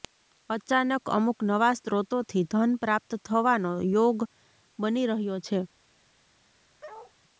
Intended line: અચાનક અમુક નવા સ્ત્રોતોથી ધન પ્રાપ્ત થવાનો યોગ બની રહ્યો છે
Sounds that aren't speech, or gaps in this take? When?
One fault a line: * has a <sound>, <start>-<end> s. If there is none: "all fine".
* has a bark, 6.8-7.1 s